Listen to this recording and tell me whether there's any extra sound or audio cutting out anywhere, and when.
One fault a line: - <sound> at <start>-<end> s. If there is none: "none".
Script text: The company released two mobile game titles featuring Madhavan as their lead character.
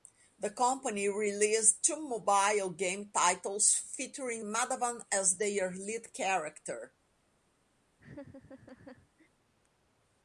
- laugh at 8.0-9.3 s